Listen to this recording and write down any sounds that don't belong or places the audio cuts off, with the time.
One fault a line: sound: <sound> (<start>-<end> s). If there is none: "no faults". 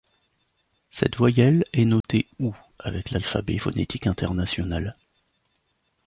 sound: dropout (2.0-2.0 s)